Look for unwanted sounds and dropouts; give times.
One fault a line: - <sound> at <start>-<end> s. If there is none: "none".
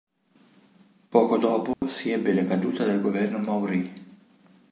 - dropout at 1.7-1.8 s